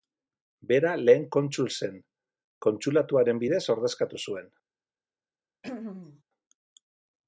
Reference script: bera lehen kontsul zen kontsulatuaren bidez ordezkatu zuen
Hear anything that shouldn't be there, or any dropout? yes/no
yes